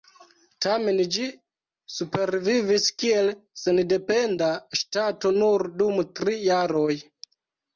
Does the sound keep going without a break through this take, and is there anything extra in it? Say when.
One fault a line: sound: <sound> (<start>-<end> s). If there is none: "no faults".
no faults